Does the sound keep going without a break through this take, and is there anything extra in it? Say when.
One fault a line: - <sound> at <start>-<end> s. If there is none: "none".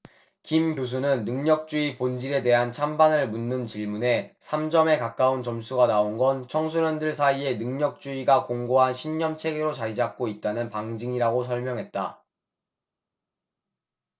none